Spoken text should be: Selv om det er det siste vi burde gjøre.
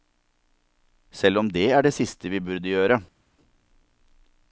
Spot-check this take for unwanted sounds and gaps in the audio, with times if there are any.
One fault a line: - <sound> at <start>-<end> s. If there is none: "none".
none